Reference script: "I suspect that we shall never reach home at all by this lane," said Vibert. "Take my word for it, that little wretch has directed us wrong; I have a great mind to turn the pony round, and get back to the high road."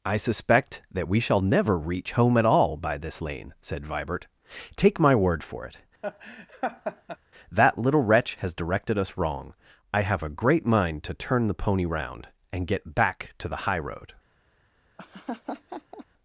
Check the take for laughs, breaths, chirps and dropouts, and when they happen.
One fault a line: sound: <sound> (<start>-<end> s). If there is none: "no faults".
sound: laugh (6.0-7.2 s)
sound: laugh (15.0-16.1 s)